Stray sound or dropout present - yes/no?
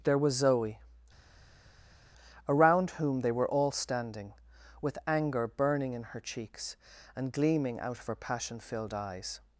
no